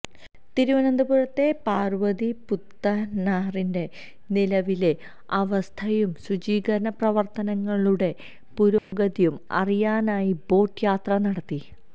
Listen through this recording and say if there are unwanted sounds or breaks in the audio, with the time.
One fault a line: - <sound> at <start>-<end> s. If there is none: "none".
- dropout at 8.8-8.9 s